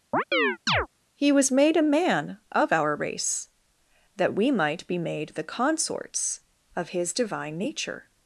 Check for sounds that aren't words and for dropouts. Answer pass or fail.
fail